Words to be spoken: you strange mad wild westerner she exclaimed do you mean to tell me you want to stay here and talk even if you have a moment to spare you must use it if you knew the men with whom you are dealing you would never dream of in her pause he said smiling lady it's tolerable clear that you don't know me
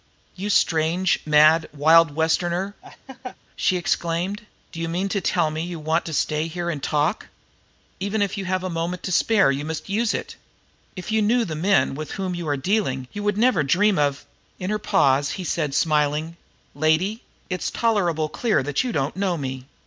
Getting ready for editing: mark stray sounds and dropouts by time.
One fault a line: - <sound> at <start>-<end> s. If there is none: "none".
- laugh at 2.8-3.4 s